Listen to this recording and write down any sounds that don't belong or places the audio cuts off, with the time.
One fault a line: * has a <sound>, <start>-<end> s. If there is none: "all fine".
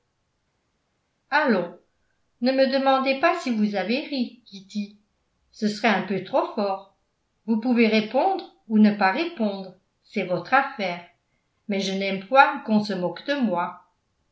all fine